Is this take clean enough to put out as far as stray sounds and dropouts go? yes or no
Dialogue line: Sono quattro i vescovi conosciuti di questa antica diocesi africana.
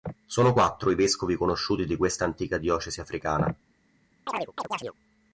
no